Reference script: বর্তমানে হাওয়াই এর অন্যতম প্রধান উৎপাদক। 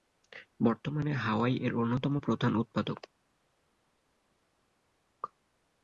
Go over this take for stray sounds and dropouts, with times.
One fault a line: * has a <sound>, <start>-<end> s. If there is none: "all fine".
all fine